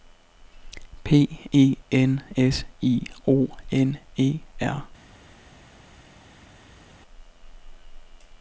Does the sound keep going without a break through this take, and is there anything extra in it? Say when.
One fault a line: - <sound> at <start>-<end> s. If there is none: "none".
none